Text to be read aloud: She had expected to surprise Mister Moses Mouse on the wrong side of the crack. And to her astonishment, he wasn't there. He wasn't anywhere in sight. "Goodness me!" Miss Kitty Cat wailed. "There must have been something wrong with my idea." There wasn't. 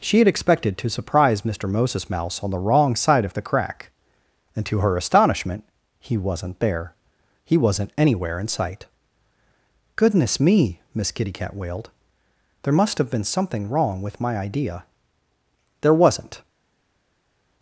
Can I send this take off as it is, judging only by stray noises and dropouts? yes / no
yes